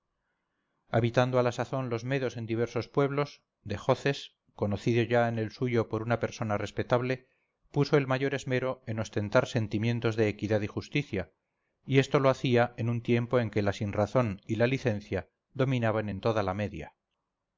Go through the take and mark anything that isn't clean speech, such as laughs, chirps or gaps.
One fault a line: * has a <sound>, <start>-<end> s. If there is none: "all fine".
all fine